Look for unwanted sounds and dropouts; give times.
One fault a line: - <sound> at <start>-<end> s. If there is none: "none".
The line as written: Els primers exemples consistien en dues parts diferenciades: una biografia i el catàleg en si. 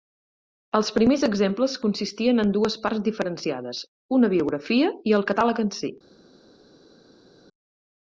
none